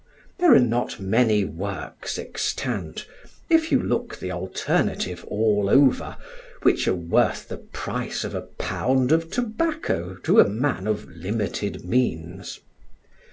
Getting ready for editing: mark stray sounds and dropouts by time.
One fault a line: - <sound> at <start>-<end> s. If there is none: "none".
none